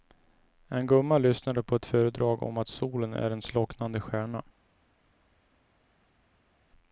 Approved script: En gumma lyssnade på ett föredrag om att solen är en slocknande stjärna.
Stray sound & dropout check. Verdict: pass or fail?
pass